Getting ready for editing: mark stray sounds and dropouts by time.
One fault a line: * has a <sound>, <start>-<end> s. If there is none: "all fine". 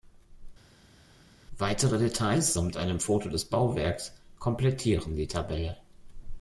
all fine